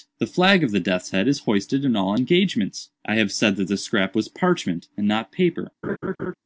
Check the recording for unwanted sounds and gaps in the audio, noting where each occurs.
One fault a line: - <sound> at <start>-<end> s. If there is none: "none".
- laugh at 5.8-6.3 s